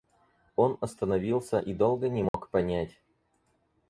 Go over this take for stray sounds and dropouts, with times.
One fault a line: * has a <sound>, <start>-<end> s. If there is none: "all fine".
* has a dropout, 2.3-2.3 s